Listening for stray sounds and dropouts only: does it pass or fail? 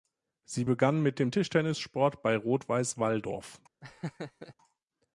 fail